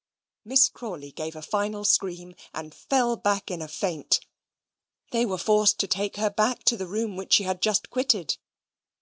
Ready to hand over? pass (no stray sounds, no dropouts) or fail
pass